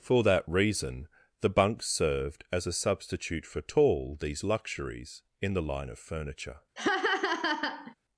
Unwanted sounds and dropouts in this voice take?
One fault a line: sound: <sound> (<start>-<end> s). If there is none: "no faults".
sound: laugh (6.8-7.9 s)